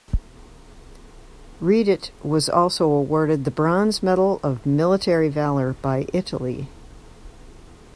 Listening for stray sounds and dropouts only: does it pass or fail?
pass